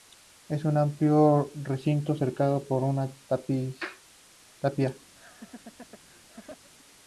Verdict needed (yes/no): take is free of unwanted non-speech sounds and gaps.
no